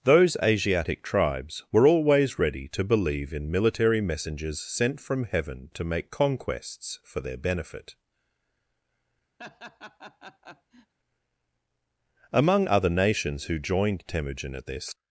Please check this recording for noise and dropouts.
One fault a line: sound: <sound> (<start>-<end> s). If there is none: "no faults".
sound: laugh (9.4-10.9 s)